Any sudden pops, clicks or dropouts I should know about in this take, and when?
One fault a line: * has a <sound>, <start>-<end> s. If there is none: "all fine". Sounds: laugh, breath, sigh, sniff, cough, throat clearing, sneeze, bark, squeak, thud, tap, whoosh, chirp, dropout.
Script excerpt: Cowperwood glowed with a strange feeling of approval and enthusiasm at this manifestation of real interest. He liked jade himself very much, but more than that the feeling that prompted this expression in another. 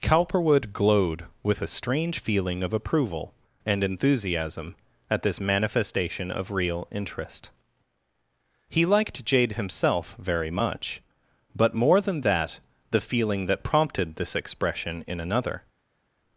all fine